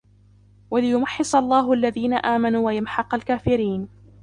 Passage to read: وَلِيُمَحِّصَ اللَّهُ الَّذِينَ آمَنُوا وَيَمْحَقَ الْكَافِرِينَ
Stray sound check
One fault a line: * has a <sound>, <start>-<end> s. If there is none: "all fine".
all fine